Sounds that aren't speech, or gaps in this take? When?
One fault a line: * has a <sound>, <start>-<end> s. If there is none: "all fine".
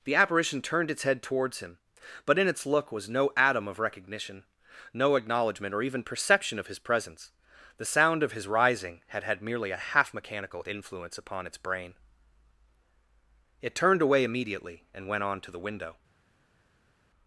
all fine